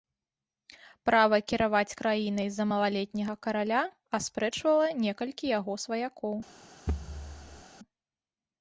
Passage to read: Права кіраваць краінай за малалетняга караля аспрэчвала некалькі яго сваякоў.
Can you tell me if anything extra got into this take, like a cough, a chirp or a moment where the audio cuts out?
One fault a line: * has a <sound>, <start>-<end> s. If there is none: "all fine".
* has a thud, 6.9-7.6 s